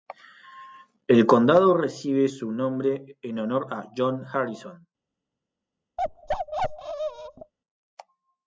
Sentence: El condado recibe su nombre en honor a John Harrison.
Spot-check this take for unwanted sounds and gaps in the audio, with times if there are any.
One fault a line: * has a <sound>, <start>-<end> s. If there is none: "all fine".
* has a bark, 6.0-7.5 s